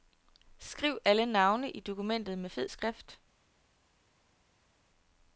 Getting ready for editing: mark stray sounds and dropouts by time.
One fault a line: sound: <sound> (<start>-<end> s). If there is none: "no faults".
no faults